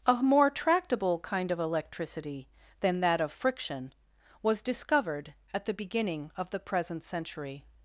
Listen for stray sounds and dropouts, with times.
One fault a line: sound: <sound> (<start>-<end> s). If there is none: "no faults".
no faults